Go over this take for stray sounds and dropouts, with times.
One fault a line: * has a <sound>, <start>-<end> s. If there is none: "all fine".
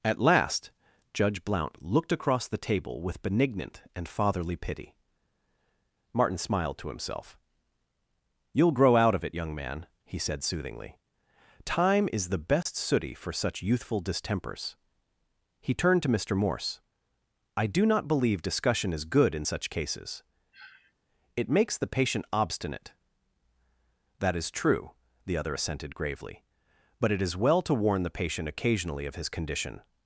* has a dropout, 12.6-12.7 s
* has a sniff, 20.5-20.9 s